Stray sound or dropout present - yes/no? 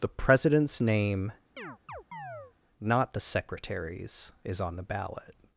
yes